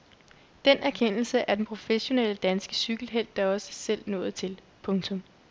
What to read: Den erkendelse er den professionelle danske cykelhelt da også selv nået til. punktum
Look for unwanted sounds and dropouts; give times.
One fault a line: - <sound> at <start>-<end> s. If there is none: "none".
none